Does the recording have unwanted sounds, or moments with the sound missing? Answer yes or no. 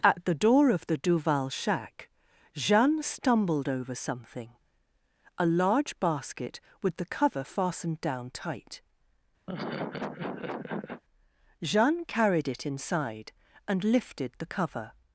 yes